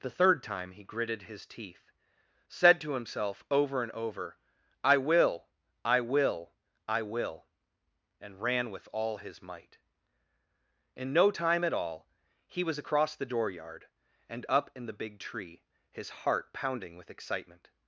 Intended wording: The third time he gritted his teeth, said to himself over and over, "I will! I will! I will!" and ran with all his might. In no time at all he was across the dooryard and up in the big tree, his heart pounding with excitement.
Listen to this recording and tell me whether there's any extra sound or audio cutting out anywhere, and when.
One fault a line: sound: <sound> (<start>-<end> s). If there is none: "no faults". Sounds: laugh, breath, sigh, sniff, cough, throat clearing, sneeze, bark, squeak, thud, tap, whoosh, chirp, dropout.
no faults